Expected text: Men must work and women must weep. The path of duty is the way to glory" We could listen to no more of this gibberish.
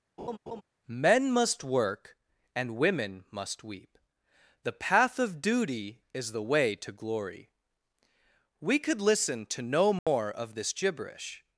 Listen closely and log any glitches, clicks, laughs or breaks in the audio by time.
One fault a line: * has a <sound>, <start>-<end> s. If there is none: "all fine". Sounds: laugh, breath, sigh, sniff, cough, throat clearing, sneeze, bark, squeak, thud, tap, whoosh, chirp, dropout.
* has a laugh, 0.2-0.6 s
* has a dropout, 10.0-10.1 s